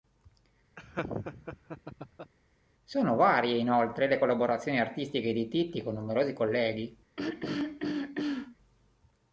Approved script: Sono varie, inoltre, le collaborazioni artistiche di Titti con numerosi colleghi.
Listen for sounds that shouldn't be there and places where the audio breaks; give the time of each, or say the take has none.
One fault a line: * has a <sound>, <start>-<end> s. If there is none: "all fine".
* has a laugh, 0.8-2.3 s
* has a throat clearing, 7.2-8.6 s